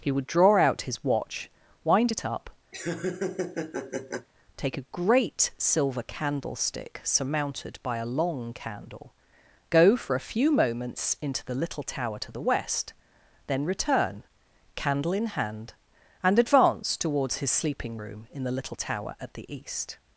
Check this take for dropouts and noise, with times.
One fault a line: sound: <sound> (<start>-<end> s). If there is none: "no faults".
sound: laugh (2.7-4.3 s)